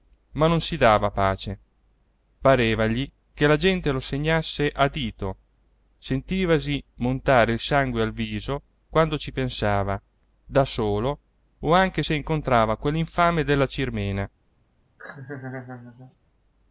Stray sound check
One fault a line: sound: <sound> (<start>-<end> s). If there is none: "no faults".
sound: laugh (15.0-16.2 s)